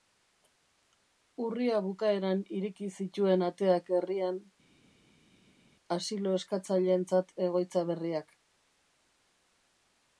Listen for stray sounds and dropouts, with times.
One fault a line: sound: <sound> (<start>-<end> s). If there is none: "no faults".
no faults